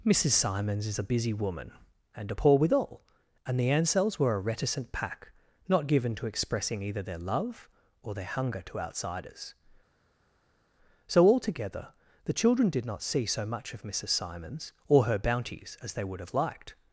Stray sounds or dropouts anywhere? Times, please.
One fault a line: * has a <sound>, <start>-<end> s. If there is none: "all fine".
all fine